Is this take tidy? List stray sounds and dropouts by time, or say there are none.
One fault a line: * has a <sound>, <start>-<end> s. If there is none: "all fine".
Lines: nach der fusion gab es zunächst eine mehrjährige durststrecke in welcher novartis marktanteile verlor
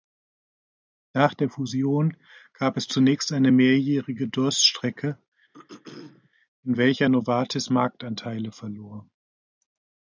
* has a throat clearing, 5.5-6.3 s